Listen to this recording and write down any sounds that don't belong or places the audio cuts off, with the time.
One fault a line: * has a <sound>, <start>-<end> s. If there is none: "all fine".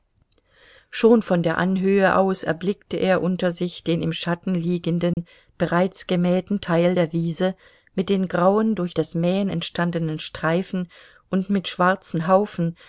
* has a dropout, 5.1-5.2 s